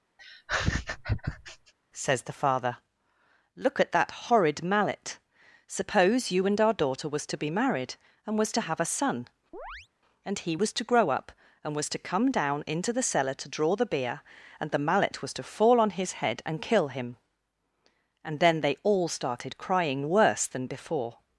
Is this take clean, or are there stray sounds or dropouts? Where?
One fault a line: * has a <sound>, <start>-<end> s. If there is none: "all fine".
* has a laugh, 0.2-1.7 s
* has a chirp, 9.5-9.9 s